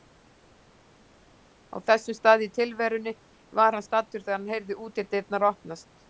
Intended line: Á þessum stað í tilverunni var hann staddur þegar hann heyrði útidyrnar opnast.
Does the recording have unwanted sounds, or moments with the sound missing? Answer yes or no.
no